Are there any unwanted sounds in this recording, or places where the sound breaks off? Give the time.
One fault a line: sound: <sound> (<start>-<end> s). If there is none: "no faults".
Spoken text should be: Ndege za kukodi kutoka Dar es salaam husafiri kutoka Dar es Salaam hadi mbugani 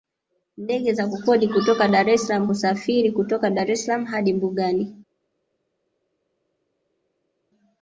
no faults